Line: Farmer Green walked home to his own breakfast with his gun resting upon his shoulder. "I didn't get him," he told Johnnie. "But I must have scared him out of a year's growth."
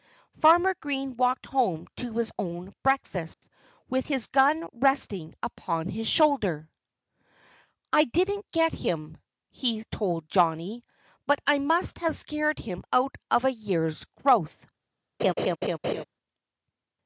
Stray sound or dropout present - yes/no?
yes